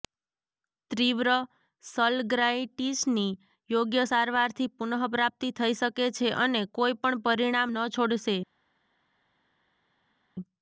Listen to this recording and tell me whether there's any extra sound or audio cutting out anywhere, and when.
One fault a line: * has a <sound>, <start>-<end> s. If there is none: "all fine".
all fine